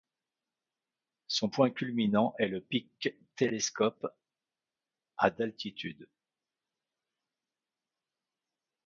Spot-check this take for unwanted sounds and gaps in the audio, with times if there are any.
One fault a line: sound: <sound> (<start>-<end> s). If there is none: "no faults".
no faults